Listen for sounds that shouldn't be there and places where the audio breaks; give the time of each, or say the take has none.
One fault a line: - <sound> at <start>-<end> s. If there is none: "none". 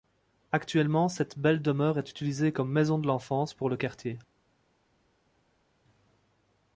none